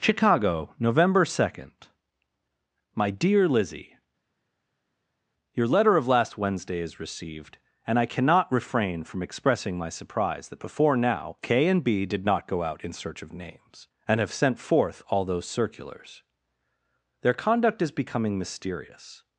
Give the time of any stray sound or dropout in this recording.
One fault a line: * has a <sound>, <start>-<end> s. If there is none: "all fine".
all fine